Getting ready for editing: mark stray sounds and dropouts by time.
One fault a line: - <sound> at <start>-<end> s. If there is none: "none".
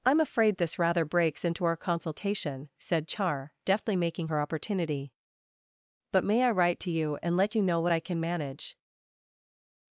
none